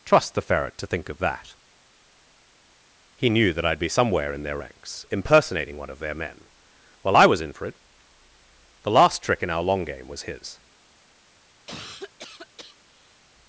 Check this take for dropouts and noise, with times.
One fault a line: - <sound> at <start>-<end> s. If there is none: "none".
- cough at 11.7-13.2 s